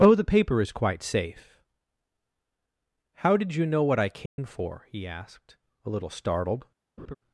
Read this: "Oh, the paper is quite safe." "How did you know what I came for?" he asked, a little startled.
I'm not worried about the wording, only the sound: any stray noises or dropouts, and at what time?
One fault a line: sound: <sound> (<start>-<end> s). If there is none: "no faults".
sound: dropout (4.3-4.4 s)
sound: laugh (7.0-7.1 s)